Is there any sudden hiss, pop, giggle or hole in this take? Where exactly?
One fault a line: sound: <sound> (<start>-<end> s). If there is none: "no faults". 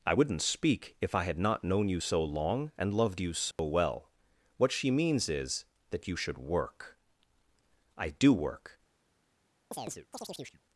sound: dropout (3.5-3.6 s)
sound: chirp (9.7-10.6 s)